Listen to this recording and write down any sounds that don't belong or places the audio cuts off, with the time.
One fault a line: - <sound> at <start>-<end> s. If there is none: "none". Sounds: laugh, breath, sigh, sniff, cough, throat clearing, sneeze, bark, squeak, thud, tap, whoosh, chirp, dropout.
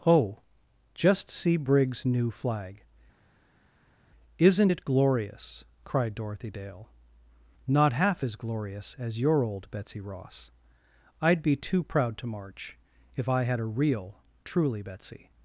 none